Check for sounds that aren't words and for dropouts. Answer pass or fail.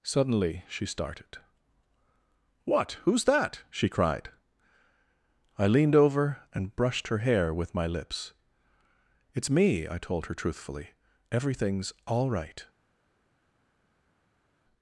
pass